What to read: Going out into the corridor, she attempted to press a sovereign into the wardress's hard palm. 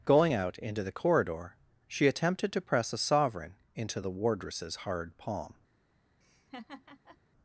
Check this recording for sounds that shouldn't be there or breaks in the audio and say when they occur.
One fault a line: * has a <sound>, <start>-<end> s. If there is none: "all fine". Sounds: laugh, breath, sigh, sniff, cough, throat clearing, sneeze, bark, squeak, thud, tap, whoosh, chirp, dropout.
* has a laugh, 6.2-7.2 s